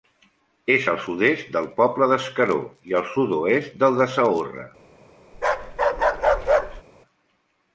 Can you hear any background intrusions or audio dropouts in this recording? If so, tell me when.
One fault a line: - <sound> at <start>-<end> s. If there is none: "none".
- bark at 5.3-6.8 s